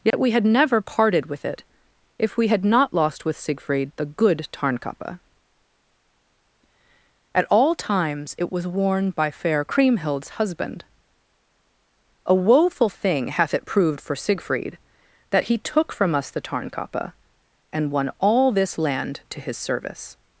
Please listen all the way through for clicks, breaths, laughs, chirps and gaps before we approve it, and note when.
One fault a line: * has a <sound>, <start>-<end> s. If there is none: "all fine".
* has a dropout, 0.1-0.1 s